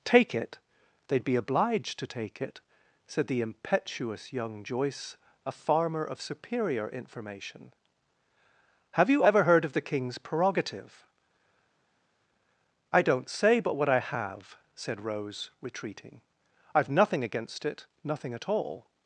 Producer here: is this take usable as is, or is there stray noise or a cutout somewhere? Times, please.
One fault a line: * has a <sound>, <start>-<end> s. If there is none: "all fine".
all fine